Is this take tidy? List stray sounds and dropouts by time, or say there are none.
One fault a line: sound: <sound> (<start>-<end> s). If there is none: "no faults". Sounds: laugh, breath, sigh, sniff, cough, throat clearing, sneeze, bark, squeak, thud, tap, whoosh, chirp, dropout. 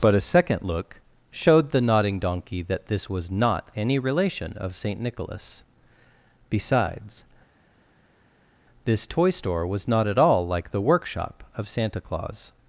no faults